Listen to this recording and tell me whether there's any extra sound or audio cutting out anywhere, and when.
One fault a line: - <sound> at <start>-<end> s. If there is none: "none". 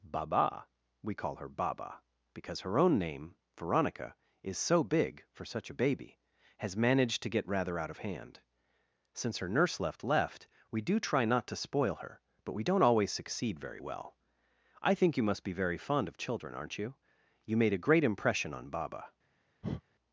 - breath at 19.6-19.8 s